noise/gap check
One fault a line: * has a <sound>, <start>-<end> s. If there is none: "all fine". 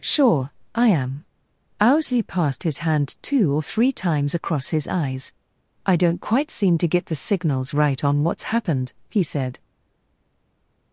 all fine